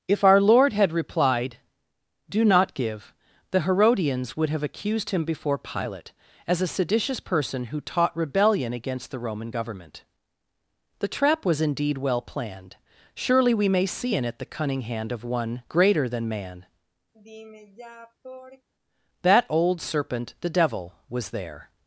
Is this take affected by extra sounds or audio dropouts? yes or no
yes